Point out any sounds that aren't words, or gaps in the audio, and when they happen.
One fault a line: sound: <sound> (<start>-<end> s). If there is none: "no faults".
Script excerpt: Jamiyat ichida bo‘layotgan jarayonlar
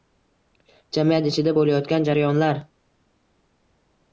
no faults